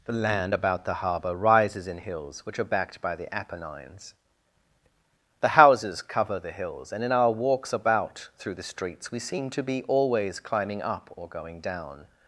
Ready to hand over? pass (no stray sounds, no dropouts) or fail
pass